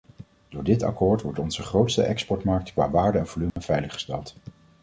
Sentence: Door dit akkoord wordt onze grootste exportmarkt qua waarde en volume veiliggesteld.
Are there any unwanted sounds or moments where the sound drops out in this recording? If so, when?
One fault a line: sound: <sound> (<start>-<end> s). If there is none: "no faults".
sound: dropout (3.5-3.6 s)